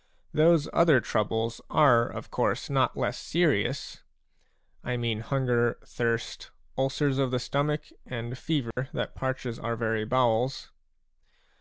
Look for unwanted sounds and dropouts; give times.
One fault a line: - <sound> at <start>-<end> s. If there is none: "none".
- dropout at 8.7-8.8 s